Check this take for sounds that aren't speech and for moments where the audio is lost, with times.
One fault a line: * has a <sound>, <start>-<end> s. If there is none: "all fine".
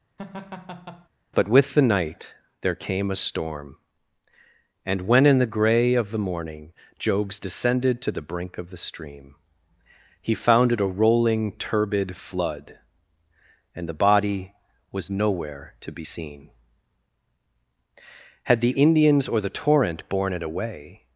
* has a laugh, 0.2-1.1 s